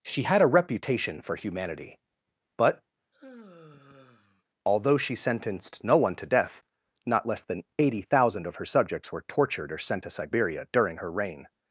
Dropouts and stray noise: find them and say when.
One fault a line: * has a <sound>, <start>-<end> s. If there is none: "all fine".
* has a sigh, 3.1-4.4 s